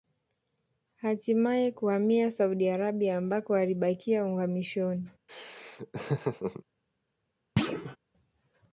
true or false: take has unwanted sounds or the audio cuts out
true